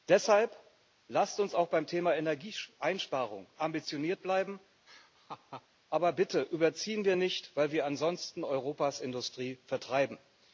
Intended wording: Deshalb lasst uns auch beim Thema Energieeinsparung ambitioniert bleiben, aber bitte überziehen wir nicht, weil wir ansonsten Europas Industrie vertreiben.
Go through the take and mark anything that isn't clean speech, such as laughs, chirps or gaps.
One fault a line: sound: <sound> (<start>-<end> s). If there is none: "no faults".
sound: laugh (4.9-5.7 s)